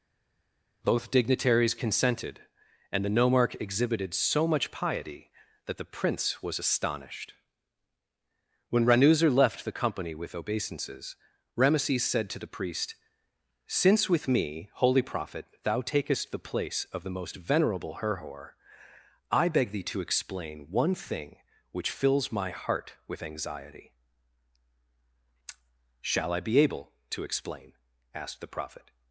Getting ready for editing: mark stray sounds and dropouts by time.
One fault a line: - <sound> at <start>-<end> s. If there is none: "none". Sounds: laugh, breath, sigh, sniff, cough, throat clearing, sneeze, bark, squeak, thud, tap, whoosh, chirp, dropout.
none